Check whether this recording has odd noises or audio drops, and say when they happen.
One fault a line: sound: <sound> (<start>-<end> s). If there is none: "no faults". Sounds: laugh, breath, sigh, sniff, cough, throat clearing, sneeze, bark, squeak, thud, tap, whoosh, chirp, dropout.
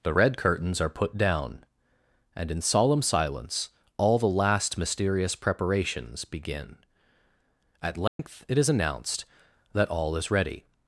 sound: dropout (8.1-8.2 s)